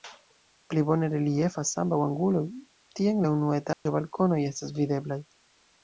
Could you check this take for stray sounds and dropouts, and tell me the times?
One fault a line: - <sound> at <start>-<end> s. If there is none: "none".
- dropout at 3.7-3.9 s